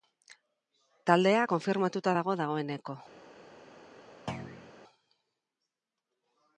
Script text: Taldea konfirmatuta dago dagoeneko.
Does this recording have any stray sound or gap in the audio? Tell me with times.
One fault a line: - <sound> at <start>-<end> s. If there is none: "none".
- thud at 4.3-4.7 s